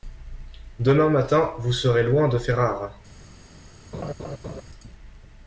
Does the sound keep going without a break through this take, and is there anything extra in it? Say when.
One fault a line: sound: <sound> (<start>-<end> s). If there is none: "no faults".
sound: laugh (3.9-4.6 s)